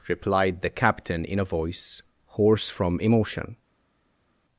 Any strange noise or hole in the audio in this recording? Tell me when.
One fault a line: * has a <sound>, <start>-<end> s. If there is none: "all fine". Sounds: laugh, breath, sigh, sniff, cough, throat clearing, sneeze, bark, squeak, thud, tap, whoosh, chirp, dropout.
all fine